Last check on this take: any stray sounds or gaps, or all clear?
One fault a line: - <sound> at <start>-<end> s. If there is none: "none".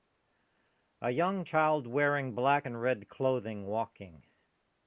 none